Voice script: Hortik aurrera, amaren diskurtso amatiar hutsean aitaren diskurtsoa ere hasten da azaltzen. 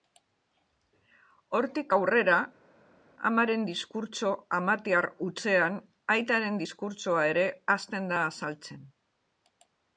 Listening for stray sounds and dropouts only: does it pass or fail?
pass